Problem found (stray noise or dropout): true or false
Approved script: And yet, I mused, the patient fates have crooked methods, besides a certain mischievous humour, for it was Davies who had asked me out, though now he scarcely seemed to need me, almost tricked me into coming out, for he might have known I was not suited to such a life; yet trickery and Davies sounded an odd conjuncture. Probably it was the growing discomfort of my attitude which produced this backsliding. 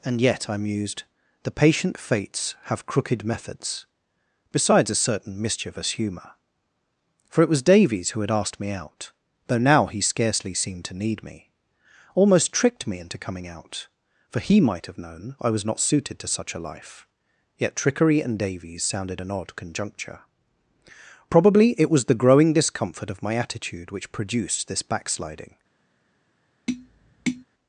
true